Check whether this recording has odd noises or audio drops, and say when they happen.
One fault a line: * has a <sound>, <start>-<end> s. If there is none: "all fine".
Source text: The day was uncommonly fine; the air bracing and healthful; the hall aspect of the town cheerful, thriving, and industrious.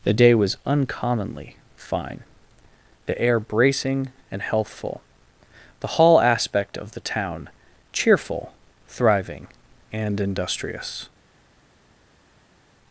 all fine